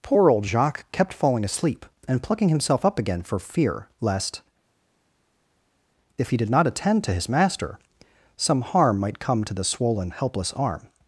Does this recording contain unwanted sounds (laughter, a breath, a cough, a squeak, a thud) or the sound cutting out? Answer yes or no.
no